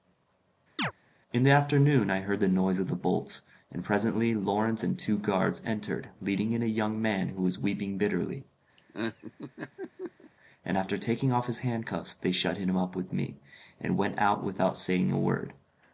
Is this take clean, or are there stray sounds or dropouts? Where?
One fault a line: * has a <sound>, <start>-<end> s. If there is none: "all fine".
* has a chirp, 0.8-0.9 s
* has a laugh, 8.8-10.3 s